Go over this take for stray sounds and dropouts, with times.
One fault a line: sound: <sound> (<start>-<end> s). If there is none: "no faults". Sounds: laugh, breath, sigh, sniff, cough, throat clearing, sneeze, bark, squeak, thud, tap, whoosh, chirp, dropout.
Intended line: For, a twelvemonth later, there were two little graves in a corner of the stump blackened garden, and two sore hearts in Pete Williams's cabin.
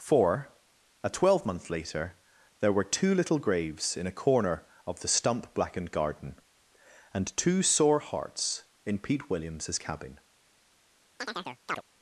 sound: chirp (11.2-11.8 s)